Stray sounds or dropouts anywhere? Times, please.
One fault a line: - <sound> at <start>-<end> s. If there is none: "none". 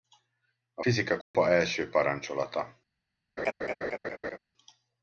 - dropout at 1.2-1.3 s
- laugh at 3.4-4.4 s